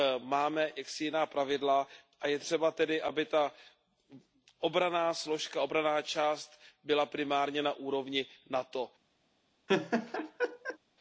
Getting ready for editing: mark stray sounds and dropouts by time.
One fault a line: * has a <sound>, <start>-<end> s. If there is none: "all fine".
* has a laugh, 9.7-10.8 s